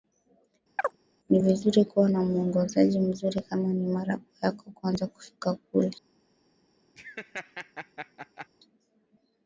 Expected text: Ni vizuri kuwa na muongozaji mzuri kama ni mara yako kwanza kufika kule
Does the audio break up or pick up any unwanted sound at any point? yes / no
yes